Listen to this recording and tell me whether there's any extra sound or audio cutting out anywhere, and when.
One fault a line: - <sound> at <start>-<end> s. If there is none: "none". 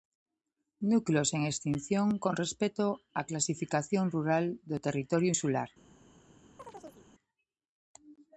- chirp at 6.6-7.1 s